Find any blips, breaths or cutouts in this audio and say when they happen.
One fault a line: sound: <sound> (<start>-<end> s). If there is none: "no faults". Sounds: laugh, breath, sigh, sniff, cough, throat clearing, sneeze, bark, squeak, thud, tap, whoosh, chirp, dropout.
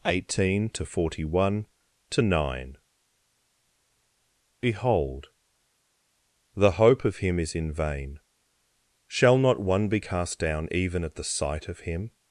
no faults